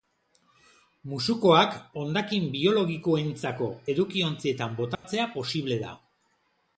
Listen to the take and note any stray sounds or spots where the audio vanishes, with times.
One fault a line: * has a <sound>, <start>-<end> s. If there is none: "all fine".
* has a dropout, 4.9-5.0 s